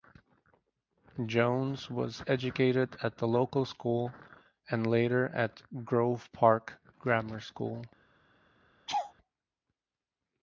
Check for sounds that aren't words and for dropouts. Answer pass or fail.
fail